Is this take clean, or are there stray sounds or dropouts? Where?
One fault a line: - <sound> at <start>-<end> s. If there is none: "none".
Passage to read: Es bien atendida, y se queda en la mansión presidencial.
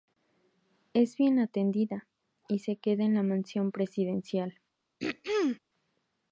- throat clearing at 5.0-5.6 s